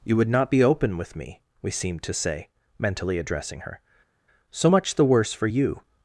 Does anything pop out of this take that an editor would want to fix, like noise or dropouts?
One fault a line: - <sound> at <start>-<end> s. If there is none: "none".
none